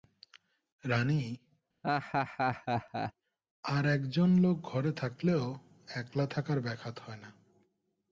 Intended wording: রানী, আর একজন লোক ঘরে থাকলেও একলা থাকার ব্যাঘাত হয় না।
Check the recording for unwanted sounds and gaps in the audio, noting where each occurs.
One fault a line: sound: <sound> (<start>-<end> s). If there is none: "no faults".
sound: laugh (1.8-3.1 s)